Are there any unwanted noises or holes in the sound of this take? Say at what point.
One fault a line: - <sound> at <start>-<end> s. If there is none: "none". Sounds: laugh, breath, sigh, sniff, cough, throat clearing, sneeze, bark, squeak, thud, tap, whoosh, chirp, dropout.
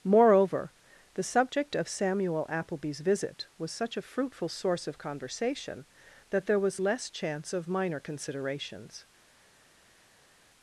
none